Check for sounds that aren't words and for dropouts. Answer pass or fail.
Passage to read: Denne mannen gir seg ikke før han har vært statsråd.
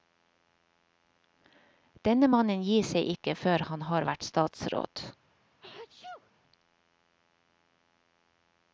fail